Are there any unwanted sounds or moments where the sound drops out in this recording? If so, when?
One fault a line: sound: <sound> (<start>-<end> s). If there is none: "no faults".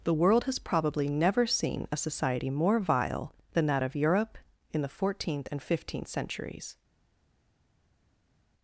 no faults